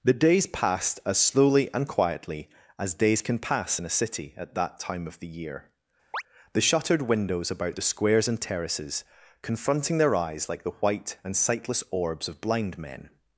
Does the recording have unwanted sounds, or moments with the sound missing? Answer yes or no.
yes